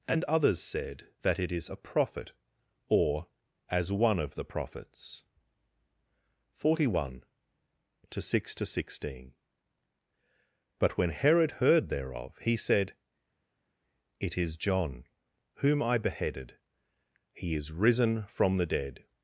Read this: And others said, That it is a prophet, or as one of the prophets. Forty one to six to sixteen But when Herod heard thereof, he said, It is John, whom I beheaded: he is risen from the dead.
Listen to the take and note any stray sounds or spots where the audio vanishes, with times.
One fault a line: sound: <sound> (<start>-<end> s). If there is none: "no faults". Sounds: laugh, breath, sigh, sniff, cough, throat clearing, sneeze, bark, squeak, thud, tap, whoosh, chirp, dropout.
no faults